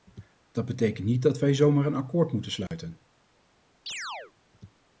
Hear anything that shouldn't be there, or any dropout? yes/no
yes